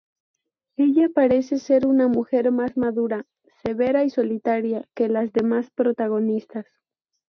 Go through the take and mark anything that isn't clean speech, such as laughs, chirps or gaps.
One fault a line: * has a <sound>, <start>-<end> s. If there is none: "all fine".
all fine